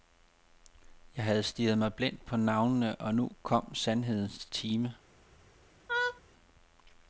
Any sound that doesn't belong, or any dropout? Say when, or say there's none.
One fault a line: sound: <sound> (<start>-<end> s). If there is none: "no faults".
sound: laugh (5.9-6.2 s)